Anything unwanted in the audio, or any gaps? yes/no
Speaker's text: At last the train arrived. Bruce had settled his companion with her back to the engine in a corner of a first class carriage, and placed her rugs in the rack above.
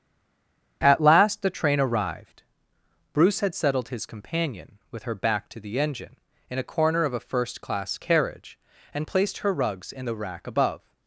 no